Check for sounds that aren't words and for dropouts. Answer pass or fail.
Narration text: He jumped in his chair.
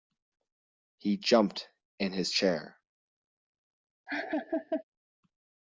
fail